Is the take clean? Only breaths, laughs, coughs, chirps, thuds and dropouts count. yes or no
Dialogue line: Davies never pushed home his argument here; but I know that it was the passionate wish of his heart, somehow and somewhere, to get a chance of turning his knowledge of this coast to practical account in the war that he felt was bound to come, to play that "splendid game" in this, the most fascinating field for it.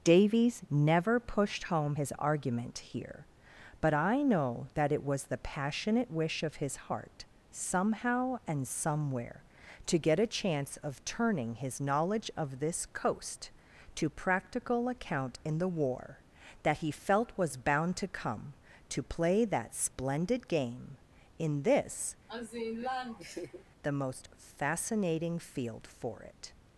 no